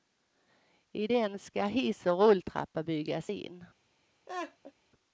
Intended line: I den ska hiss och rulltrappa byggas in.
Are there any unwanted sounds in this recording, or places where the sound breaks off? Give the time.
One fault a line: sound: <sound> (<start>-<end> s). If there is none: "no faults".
sound: laugh (4.3-4.7 s)